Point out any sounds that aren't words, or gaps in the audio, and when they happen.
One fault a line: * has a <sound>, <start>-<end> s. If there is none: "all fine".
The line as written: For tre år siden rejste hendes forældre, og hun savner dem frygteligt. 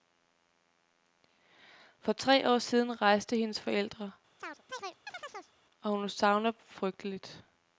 * has a chirp, 4.4-5.5 s